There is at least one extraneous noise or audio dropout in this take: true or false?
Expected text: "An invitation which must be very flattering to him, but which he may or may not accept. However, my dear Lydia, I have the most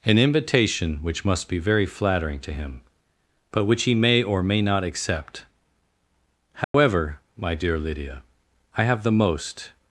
true